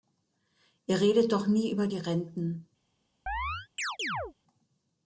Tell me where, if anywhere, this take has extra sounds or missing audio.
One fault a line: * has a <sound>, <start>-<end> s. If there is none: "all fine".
* has a chirp, 3.3-4.3 s